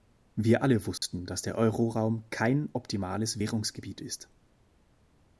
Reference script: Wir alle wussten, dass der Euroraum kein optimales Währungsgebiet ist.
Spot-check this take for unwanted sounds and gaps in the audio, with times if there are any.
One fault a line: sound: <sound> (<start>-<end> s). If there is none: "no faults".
sound: dropout (1.0-1.0 s)